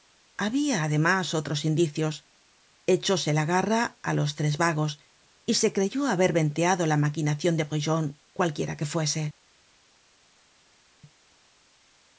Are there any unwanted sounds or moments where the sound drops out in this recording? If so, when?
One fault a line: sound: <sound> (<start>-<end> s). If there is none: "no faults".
no faults